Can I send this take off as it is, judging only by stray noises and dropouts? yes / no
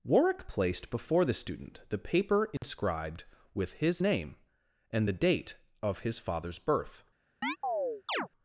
no